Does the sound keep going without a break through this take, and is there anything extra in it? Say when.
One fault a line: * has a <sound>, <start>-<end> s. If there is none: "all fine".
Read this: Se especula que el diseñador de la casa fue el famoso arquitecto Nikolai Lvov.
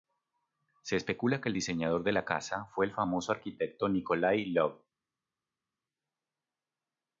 all fine